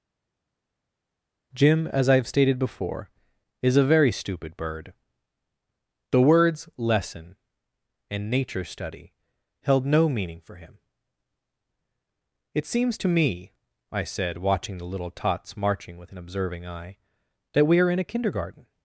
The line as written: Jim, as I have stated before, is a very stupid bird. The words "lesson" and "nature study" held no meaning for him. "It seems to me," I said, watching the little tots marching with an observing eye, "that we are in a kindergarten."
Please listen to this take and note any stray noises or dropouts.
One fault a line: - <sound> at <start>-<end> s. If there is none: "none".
none